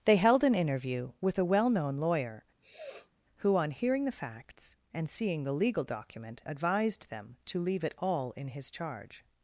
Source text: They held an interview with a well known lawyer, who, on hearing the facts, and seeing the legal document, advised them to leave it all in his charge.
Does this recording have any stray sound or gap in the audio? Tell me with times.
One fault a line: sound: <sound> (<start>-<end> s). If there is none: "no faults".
sound: sniff (2.6-3.1 s)